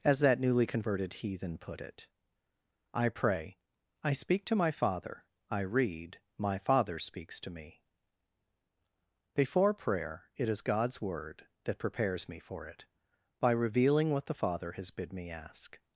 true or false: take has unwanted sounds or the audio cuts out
false